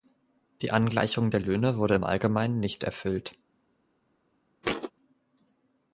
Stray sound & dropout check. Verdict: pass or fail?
fail